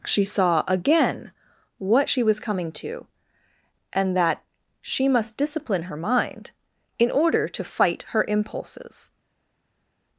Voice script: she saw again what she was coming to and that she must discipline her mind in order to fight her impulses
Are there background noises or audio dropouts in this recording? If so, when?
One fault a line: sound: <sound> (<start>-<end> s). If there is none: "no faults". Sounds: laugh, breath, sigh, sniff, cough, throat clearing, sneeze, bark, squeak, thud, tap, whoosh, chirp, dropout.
no faults